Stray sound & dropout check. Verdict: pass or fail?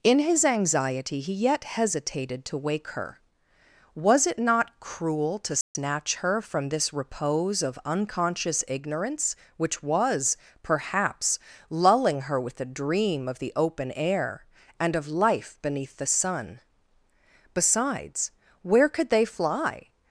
fail